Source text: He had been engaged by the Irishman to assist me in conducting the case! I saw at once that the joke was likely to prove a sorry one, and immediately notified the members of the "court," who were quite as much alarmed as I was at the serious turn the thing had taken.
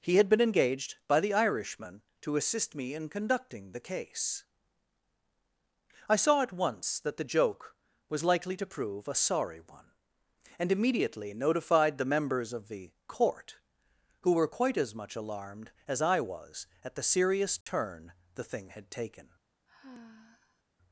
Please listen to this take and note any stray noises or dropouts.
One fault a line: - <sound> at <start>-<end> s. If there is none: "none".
- dropout at 17.6-17.7 s
- sigh at 19.7-20.6 s